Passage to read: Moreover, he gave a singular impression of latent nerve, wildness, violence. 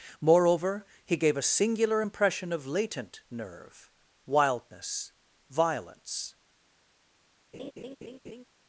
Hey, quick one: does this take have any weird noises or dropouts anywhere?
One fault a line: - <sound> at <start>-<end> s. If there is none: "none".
- laugh at 7.5-8.4 s